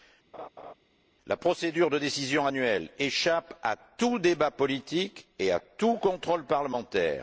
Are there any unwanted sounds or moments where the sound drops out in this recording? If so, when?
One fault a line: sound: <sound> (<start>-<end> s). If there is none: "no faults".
sound: laugh (0.3-0.7 s)